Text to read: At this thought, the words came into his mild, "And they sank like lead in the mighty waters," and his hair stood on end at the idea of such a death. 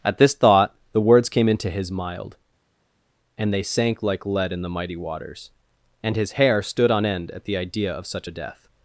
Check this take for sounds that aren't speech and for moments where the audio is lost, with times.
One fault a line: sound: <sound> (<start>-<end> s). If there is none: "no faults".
no faults